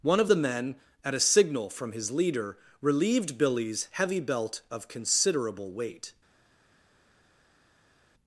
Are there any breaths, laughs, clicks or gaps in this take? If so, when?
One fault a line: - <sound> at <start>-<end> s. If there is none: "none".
none